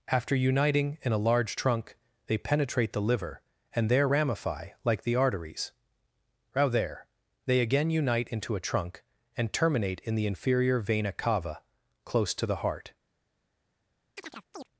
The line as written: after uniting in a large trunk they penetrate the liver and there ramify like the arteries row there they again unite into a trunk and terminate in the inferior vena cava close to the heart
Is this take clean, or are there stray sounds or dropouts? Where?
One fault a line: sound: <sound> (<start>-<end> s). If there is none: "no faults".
sound: chirp (14.2-14.7 s)